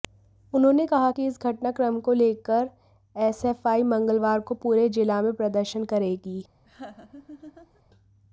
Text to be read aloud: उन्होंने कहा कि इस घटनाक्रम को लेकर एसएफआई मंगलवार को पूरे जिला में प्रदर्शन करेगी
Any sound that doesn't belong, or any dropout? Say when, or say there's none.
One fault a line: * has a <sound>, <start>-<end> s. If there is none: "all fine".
* has a laugh, 6.6-7.8 s